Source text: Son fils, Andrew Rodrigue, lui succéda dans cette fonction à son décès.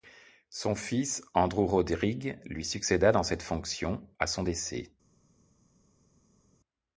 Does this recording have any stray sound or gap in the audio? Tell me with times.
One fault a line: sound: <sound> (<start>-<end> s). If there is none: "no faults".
no faults